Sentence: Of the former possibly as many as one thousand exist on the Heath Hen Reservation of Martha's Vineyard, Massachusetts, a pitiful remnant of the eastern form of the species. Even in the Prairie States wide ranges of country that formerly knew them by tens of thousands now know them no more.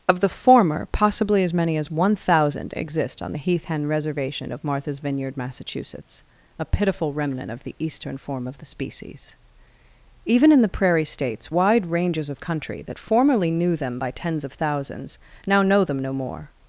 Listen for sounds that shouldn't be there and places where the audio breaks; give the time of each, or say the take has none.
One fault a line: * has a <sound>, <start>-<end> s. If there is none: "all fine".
all fine